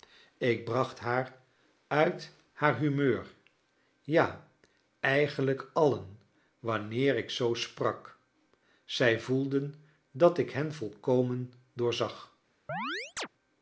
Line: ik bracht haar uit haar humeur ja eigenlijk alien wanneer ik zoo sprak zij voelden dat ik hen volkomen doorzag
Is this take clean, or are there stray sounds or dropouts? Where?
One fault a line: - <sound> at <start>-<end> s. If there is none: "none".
- chirp at 12.7-13.3 s